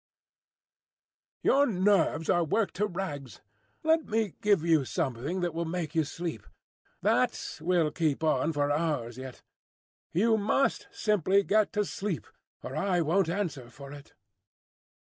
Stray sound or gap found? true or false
false